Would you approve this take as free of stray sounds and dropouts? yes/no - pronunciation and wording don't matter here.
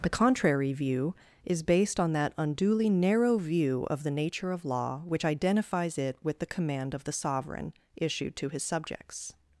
yes